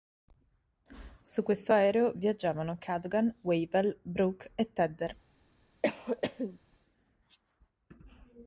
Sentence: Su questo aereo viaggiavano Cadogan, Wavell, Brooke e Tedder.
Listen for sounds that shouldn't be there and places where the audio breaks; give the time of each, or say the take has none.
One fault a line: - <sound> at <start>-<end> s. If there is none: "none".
- cough at 5.8-6.6 s